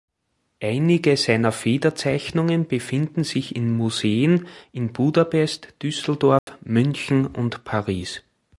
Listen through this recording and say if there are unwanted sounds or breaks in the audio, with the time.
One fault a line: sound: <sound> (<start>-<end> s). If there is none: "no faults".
sound: dropout (6.4-6.5 s)